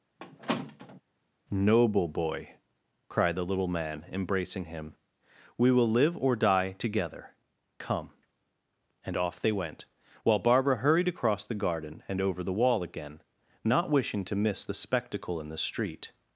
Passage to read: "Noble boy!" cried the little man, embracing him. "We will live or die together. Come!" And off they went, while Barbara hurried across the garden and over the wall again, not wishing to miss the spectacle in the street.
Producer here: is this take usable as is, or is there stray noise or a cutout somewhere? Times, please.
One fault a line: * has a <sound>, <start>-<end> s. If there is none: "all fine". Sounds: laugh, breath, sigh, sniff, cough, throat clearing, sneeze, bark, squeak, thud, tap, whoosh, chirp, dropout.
* has a squeak, 0.2-1.0 s